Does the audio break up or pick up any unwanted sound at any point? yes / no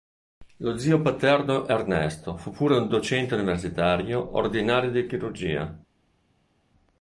no